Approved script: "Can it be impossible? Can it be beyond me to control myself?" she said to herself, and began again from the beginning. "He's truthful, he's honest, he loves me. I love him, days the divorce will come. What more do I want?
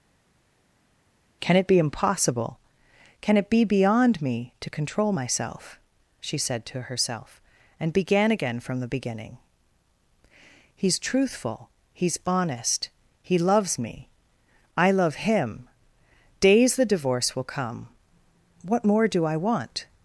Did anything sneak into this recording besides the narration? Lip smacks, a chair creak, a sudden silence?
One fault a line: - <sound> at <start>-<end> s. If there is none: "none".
none